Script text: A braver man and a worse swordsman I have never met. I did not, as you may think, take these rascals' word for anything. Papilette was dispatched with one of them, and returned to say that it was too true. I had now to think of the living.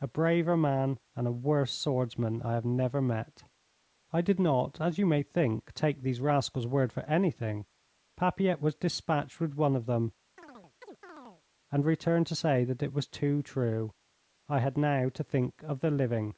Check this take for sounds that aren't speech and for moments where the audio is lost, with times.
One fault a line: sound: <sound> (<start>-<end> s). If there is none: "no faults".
sound: chirp (10.4-11.4 s)